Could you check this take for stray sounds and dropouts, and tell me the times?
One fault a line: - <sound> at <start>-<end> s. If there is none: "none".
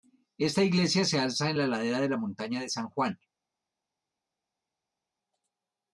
none